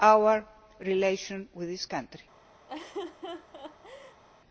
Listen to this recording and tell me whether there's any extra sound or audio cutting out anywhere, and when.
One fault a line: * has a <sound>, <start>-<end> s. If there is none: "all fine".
* has a laugh, 2.7-4.2 s